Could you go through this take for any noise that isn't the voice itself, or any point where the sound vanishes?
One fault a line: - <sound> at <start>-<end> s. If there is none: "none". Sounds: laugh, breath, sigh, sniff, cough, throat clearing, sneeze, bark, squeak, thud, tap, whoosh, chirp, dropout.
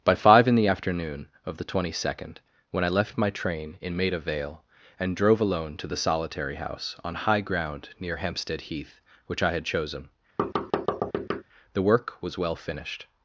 - thud at 10.4-11.4 s